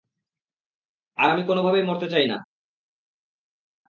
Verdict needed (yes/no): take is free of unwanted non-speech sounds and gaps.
yes